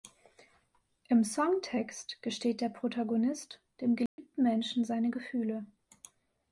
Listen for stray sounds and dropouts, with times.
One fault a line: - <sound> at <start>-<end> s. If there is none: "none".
- dropout at 4.1-4.2 s